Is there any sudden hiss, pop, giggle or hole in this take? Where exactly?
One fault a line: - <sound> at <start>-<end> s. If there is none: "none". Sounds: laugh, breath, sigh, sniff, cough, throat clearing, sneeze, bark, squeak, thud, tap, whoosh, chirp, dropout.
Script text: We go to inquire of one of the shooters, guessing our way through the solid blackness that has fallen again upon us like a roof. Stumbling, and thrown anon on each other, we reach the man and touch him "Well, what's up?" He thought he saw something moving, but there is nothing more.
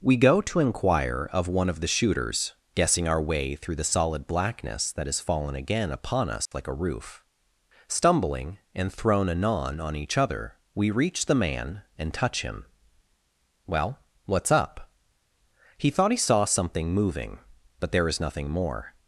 - dropout at 6.5-6.5 s